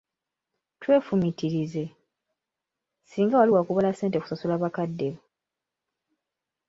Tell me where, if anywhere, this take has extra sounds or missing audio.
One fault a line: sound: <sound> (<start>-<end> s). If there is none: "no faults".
no faults